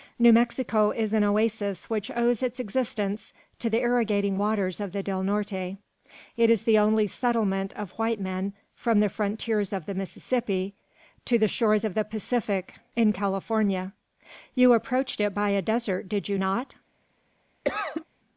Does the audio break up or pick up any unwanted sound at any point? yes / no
yes